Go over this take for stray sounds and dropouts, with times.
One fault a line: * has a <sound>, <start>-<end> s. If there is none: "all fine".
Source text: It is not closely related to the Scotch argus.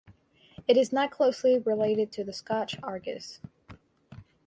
all fine